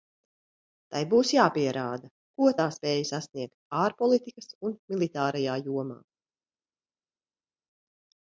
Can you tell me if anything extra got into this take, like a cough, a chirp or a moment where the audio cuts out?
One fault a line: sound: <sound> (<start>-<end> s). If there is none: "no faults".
no faults